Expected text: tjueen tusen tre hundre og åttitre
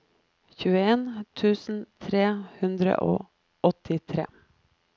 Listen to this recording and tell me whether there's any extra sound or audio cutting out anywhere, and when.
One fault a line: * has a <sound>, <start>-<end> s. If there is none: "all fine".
all fine